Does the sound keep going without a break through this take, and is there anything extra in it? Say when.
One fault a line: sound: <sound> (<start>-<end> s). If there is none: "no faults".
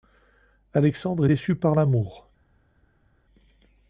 no faults